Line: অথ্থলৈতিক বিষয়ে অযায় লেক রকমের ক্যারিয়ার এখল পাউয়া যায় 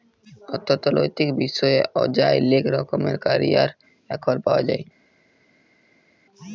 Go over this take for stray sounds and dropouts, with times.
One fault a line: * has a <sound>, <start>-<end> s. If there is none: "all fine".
all fine